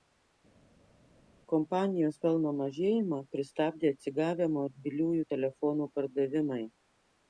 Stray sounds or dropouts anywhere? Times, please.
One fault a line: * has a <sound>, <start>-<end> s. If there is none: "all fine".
all fine